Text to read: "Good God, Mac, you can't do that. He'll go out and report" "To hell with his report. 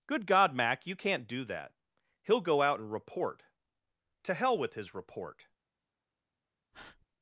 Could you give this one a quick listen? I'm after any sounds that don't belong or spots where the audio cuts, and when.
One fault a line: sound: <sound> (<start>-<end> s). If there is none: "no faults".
sound: breath (6.7-7.1 s)